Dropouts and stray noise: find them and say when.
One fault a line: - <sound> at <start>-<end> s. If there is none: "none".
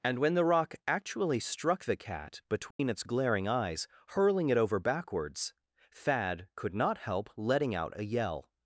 - dropout at 2.7-2.8 s